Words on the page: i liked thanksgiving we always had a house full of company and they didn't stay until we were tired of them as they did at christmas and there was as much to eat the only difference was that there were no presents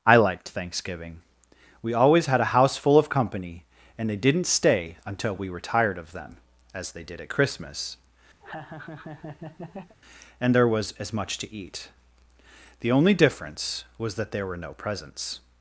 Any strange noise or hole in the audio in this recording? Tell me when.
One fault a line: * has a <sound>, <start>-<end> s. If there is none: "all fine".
* has a laugh, 8.4-10.0 s